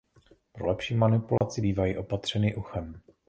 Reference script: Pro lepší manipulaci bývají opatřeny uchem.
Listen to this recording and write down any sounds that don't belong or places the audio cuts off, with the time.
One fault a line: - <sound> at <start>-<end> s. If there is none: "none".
- dropout at 1.4-1.4 s